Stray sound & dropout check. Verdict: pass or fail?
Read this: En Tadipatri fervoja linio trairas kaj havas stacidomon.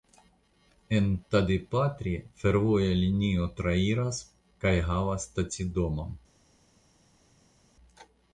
pass